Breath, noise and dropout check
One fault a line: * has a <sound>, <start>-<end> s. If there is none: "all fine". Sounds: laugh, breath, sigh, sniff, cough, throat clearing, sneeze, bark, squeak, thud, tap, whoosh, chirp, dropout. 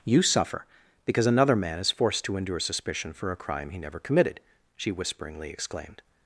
all fine